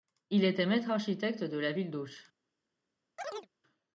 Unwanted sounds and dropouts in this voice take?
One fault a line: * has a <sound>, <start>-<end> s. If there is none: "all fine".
* has a chirp, 3.2-3.5 s